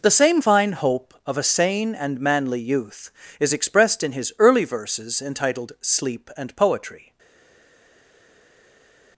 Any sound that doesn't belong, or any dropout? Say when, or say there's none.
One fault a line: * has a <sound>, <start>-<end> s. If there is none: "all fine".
all fine